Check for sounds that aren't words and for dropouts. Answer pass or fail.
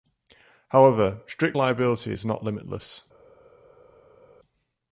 pass